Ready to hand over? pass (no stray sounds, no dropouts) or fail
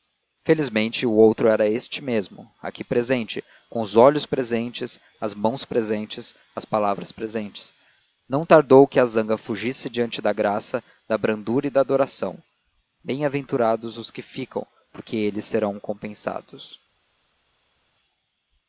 pass